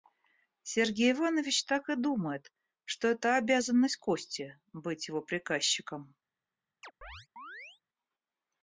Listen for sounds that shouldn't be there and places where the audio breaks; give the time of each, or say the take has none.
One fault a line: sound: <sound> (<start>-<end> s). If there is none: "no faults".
sound: chirp (6.8-7.8 s)